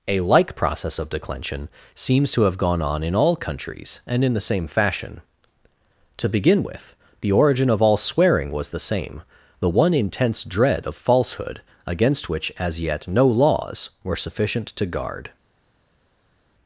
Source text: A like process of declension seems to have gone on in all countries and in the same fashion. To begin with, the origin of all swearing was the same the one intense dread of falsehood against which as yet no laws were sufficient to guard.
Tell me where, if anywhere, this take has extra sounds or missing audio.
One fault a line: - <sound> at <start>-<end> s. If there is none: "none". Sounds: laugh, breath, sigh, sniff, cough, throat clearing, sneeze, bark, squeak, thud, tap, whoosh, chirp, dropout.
none